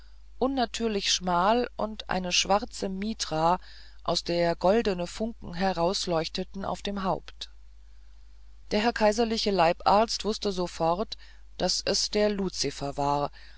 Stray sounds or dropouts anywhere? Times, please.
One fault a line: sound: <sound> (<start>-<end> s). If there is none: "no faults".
no faults